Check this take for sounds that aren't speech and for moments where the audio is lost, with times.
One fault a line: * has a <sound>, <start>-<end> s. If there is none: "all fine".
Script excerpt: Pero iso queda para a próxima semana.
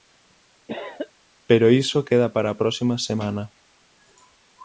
* has a cough, 0.7-1.1 s